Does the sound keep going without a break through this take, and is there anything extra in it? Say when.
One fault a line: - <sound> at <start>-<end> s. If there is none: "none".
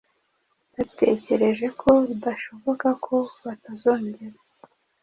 none